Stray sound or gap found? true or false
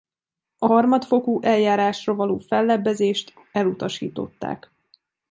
false